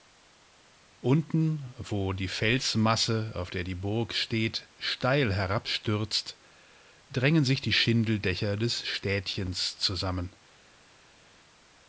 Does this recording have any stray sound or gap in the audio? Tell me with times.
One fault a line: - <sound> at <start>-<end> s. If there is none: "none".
none